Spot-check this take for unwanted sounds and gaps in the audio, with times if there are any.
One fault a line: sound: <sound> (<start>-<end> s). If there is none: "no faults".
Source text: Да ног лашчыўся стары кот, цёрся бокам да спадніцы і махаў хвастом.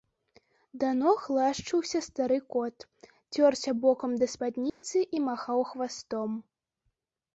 sound: dropout (4.7-4.8 s)